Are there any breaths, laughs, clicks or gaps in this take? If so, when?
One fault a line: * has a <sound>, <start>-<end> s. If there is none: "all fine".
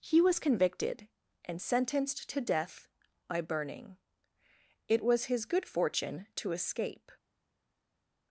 all fine